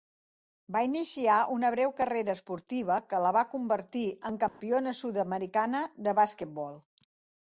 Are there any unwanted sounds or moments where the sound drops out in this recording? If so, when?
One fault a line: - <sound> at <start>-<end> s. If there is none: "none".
- dropout at 4.5-4.6 s